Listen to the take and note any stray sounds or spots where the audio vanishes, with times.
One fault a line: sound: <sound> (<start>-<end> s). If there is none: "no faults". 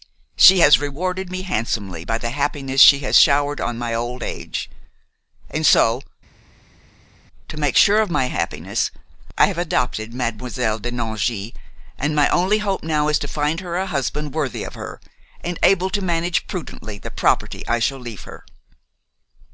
no faults